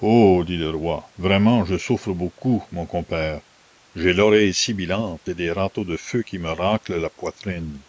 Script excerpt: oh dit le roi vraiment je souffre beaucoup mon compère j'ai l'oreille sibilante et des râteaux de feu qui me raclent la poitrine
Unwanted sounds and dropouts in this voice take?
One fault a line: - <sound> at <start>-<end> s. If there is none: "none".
none